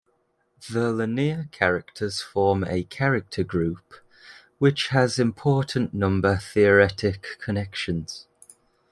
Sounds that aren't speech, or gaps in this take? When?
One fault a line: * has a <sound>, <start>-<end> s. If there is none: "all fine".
all fine